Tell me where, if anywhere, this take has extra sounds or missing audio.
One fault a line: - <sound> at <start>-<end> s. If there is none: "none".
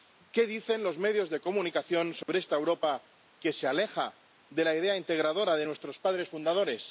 - dropout at 2.2-2.3 s